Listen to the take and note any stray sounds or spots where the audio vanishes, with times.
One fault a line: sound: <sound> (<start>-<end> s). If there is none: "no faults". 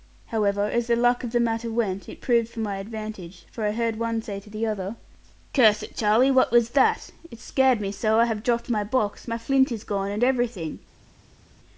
no faults